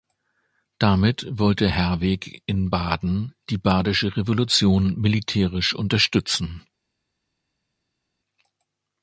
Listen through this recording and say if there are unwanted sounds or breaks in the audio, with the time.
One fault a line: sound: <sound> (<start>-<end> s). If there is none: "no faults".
no faults